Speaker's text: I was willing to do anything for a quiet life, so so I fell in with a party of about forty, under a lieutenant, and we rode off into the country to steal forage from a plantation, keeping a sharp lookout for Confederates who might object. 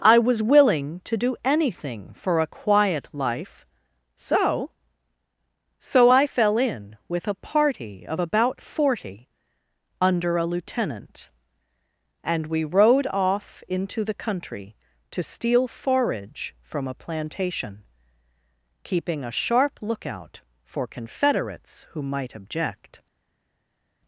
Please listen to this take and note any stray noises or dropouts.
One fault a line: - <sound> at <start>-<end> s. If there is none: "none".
none